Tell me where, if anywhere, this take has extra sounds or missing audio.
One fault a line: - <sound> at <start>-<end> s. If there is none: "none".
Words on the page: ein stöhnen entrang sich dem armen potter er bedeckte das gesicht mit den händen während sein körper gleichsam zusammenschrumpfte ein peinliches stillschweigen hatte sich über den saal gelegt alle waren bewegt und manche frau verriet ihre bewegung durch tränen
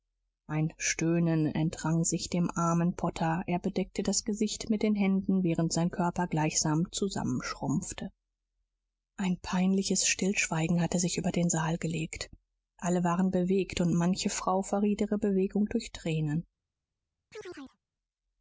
- chirp at 17.3-17.8 s